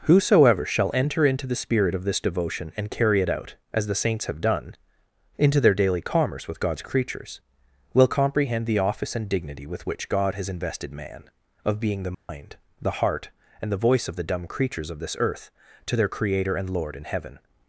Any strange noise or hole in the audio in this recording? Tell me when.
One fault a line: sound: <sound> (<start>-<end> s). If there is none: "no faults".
sound: dropout (12.1-12.3 s)